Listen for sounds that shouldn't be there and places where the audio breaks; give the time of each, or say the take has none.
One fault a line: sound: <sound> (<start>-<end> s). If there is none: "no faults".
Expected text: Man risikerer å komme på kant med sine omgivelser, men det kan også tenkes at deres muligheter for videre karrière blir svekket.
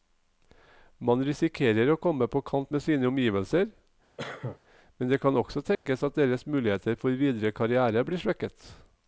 sound: cough (4.2-4.6 s)
sound: dropout (5.8-5.9 s)